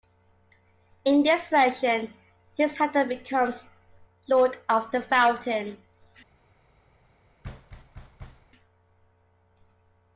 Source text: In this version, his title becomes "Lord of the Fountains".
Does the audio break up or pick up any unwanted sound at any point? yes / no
yes